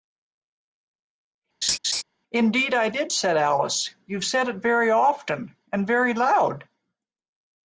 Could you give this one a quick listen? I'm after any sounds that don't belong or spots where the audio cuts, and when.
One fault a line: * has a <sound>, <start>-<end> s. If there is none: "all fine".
* has a laugh, 1.6-2.0 s